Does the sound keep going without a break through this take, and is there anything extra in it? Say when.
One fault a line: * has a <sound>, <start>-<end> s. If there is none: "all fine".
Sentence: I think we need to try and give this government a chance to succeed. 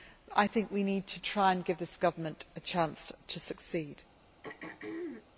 * has a throat clearing, 4.4-5.3 s